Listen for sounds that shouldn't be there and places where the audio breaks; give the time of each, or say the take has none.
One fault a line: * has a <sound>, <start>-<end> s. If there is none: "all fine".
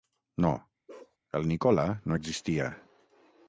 * has a bark, 0.9-1.2 s